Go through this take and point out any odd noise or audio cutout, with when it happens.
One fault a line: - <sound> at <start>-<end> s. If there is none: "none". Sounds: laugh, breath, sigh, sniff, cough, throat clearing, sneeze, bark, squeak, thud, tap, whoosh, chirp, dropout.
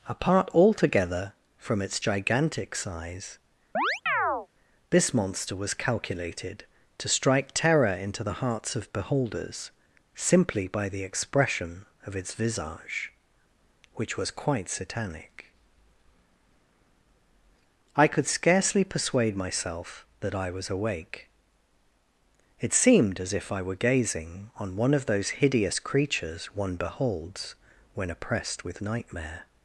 - chirp at 3.7-4.5 s